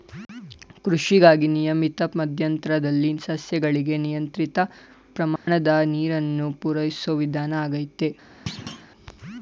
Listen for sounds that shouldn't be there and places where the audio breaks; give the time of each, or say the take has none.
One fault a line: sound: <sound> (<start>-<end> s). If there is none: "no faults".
sound: dropout (5.4-5.5 s)
sound: thud (8.5-8.9 s)